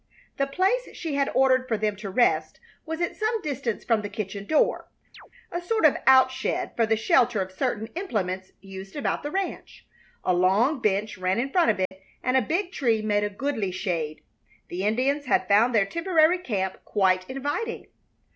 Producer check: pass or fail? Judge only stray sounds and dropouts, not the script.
fail